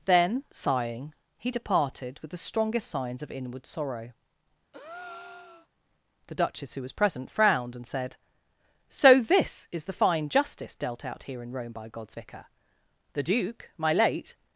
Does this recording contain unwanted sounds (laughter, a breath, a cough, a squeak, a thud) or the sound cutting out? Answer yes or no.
yes